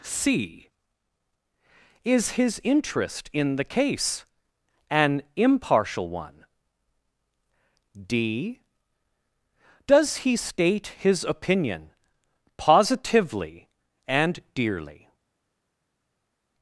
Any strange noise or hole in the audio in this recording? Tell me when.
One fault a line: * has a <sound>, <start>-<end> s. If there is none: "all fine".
all fine